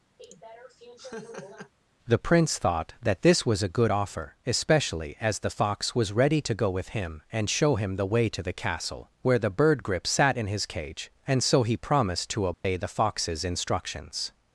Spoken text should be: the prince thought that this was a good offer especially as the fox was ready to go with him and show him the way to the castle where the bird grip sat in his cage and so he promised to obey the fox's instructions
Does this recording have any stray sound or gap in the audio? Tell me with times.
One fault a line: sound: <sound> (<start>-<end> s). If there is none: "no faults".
sound: laugh (0.2-1.7 s)
sound: dropout (12.5-12.6 s)